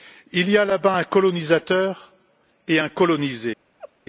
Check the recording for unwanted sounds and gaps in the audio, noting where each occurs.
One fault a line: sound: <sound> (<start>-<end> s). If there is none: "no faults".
sound: laugh (3.8-3.9 s)